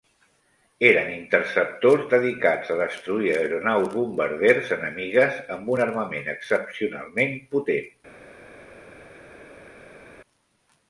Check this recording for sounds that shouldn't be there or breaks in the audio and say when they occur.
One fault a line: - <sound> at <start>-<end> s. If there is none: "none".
none